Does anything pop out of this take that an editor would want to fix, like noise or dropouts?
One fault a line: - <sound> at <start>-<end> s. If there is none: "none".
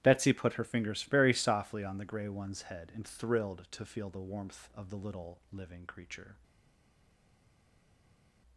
none